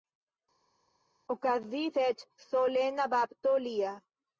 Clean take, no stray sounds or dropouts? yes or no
yes